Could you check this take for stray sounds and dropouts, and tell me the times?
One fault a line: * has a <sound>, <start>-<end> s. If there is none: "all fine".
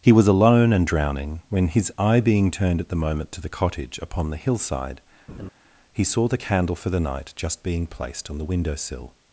* has a laugh, 5.3-5.5 s